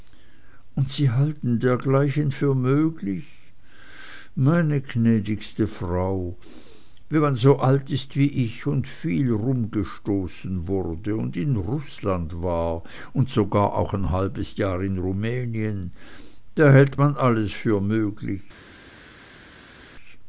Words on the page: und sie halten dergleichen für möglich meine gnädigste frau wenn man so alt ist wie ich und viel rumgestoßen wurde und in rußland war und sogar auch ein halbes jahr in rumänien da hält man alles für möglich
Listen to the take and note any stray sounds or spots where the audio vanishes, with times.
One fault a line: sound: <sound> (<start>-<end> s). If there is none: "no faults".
no faults